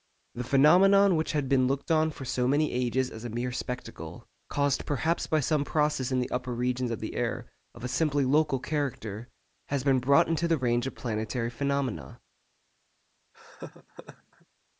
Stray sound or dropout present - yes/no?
yes